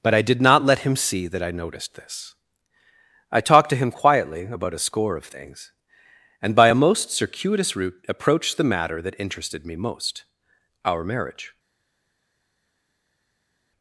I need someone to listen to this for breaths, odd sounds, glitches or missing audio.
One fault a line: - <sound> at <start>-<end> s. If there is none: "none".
none